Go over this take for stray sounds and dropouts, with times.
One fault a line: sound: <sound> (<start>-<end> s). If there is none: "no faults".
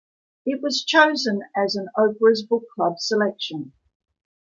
no faults